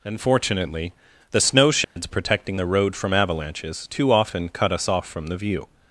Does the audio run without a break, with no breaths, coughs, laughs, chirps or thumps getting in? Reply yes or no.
no